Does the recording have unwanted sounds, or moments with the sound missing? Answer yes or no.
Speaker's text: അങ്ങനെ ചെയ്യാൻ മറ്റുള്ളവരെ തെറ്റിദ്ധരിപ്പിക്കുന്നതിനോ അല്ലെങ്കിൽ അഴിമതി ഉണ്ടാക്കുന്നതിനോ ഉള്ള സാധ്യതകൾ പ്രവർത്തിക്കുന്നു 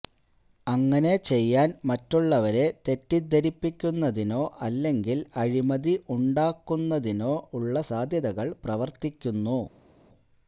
no